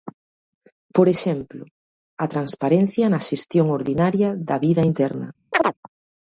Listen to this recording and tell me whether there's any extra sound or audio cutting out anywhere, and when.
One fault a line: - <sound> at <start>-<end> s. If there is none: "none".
- chirp at 5.5-5.7 s